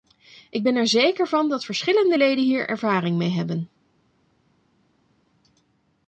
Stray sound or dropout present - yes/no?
no